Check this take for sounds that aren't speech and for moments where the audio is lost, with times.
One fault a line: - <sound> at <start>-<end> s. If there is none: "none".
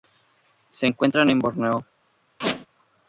- squeak at 2.4-2.7 s